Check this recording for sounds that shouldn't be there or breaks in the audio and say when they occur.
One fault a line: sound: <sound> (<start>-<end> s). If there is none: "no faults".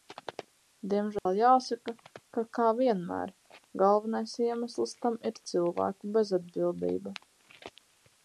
sound: dropout (1.2-1.3 s)